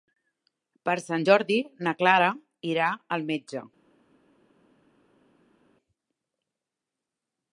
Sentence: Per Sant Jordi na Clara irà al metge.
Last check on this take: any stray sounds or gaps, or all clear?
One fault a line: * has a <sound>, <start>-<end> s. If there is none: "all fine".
all fine